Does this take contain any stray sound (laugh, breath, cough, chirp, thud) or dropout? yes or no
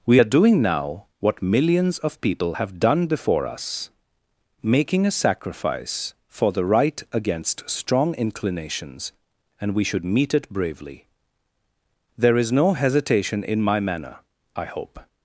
no